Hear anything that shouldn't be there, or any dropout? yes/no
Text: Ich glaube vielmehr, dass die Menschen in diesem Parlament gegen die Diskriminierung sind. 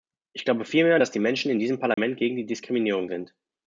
yes